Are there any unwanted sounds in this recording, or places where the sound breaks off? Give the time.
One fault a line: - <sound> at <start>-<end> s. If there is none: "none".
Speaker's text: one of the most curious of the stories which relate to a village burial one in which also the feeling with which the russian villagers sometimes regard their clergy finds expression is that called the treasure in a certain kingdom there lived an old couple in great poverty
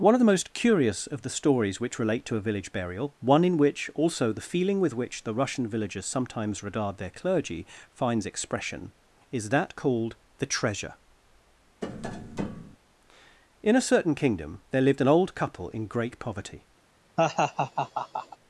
- tap at 11.8-12.8 s
- laugh at 17.2-18.4 s